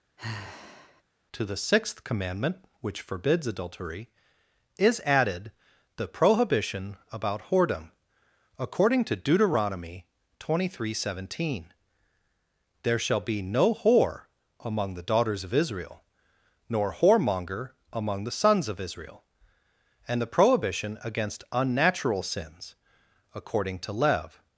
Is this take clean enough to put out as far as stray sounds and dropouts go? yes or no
no